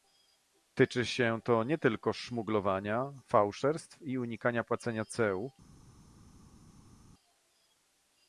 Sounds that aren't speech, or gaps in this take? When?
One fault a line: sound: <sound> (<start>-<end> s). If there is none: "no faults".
no faults